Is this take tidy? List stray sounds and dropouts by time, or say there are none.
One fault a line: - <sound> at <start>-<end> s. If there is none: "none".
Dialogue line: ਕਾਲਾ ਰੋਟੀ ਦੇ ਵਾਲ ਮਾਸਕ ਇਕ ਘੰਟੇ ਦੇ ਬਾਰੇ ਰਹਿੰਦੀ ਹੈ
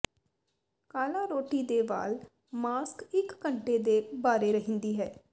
none